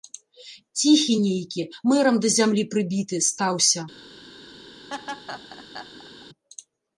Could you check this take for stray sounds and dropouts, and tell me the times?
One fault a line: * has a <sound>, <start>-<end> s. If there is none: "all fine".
* has a laugh, 4.9-6.3 s